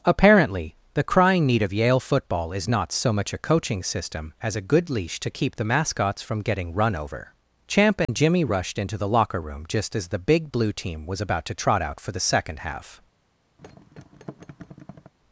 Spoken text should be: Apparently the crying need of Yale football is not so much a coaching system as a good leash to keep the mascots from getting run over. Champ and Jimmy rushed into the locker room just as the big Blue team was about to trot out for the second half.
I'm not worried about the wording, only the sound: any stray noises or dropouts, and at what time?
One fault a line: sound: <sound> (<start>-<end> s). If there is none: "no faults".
sound: dropout (8.0-8.1 s)
sound: thud (13.6-15.1 s)